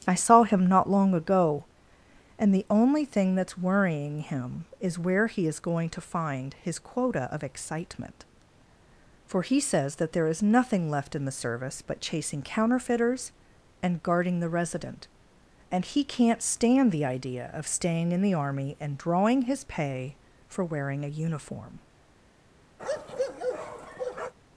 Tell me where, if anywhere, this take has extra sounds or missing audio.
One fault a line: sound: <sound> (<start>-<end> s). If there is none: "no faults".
sound: bark (22.8-24.3 s)